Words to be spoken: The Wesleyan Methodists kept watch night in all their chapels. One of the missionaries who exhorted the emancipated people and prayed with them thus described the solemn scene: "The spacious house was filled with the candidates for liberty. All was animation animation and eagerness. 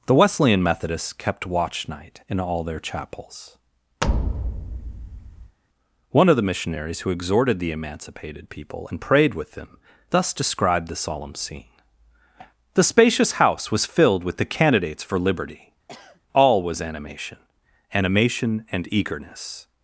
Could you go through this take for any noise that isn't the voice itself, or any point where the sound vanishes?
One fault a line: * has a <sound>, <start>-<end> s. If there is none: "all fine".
* has a thud, 4.0-5.6 s
* has a sniff, 15.9-16.2 s